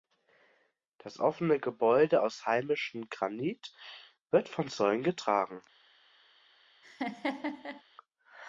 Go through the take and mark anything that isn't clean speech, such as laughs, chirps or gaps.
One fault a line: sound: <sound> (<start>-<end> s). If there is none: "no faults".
sound: laugh (6.8-7.8 s)